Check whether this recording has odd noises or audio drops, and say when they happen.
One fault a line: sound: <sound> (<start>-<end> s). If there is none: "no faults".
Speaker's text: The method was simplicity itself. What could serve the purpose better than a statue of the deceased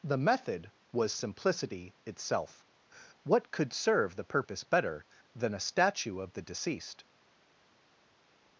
no faults